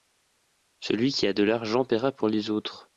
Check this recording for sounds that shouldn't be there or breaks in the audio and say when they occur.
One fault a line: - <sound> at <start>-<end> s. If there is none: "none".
none